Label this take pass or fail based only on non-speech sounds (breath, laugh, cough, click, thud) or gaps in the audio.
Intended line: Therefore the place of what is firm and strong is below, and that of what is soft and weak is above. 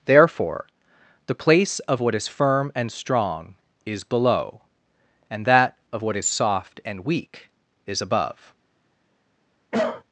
fail